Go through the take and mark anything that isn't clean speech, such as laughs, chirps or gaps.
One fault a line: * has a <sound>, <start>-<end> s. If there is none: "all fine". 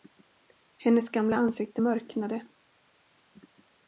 all fine